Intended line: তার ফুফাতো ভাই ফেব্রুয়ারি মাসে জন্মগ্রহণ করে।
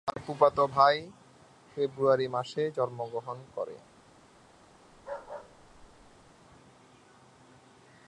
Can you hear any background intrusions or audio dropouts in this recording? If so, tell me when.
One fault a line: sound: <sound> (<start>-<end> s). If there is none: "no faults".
sound: bark (4.9-6.3 s)